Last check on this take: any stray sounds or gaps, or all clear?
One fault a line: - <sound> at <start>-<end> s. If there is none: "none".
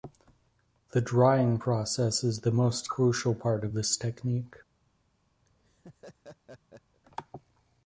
- laugh at 5.5-7.0 s